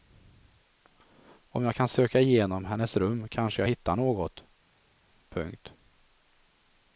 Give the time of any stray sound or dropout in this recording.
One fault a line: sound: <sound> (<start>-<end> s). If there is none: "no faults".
no faults